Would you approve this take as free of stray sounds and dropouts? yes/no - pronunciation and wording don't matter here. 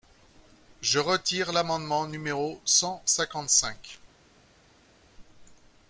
yes